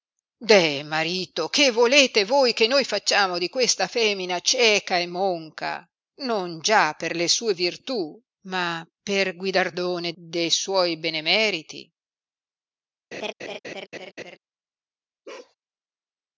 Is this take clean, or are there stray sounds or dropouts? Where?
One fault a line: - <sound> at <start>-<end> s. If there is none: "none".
- laugh at 13.1-14.4 s
- bark at 15.2-15.5 s